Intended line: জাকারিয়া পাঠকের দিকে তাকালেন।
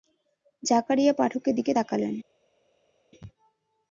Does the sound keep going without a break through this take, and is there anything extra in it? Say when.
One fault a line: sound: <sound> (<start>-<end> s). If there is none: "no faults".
no faults